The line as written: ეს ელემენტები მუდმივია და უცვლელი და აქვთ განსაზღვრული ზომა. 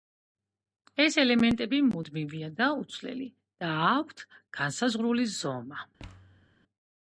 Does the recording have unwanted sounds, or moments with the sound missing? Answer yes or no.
yes